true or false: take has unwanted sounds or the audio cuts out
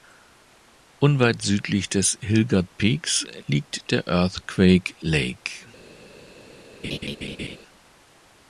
true